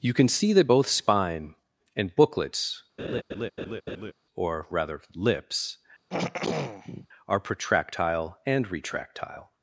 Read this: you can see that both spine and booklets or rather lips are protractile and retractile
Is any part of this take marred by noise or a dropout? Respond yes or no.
yes